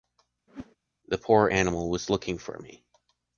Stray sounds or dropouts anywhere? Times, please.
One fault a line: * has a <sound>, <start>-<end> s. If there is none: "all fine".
* has a whoosh, 0.5-0.8 s